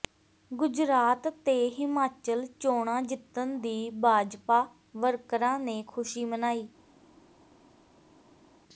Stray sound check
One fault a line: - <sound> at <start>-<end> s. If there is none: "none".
none